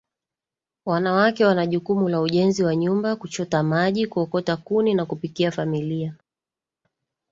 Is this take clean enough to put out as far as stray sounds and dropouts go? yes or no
yes